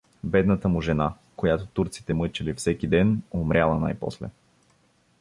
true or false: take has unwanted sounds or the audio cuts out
false